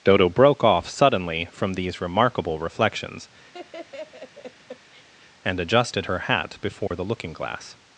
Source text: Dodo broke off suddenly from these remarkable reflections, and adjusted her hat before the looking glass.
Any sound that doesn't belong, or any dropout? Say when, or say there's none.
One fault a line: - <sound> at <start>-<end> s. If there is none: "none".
- laugh at 3.5-5.1 s
- dropout at 6.9-6.9 s